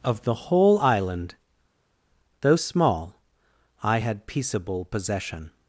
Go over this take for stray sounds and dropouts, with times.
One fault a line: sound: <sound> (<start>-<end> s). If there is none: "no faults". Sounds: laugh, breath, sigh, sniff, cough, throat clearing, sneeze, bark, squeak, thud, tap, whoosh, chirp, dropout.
no faults